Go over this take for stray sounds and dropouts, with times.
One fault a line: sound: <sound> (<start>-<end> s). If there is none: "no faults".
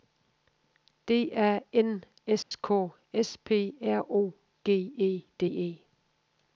sound: dropout (2.4-2.5 s)